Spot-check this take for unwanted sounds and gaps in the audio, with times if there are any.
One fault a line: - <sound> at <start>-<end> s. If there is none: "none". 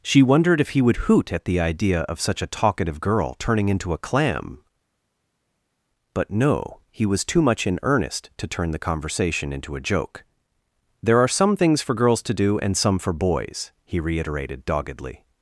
none